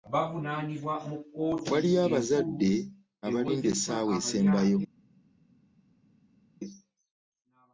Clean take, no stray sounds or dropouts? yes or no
yes